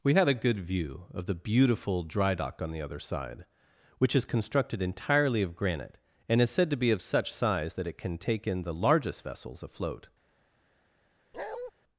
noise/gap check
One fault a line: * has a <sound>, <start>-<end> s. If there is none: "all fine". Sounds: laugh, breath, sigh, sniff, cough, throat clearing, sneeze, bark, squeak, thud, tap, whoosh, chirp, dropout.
* has a bark, 11.3-11.7 s